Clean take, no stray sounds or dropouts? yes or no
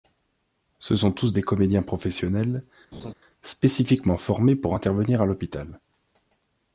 no